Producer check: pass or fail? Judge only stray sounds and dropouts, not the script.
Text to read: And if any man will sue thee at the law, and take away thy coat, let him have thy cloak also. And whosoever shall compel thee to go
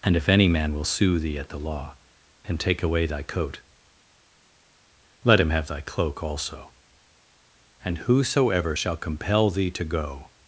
pass